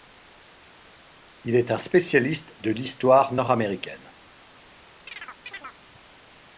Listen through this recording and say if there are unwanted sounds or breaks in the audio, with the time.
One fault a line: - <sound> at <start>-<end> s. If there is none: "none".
- chirp at 5.1-5.8 s